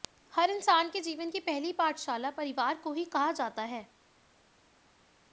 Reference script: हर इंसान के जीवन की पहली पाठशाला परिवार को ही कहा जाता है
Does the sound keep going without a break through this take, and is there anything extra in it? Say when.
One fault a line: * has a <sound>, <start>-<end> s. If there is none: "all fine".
all fine